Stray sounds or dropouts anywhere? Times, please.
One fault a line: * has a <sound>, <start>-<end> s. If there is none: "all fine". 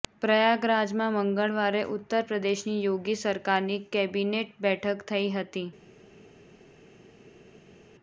all fine